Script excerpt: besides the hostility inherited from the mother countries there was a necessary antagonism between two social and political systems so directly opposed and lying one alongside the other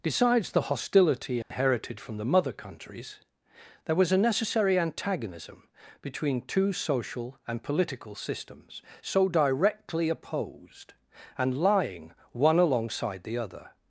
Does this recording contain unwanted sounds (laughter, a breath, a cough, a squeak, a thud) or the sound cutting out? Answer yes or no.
yes